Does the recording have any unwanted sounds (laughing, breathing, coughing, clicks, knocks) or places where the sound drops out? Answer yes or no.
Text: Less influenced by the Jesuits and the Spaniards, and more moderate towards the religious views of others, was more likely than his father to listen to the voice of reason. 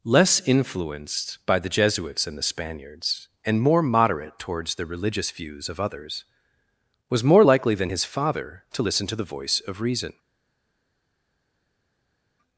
no